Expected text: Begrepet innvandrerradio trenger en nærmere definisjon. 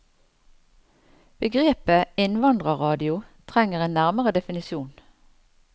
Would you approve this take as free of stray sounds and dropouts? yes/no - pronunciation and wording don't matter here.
yes